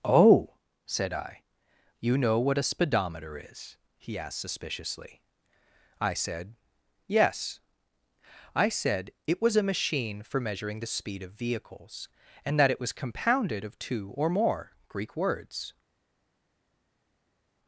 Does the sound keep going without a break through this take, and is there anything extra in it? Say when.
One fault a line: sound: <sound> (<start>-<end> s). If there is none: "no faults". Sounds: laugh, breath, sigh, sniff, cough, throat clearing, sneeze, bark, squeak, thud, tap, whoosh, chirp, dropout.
no faults